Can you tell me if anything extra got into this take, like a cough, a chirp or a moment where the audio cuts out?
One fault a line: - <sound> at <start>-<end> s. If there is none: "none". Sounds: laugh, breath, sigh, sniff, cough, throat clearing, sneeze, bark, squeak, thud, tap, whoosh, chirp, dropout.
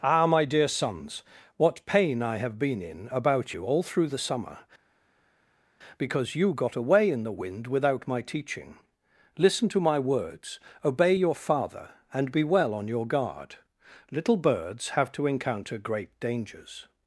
none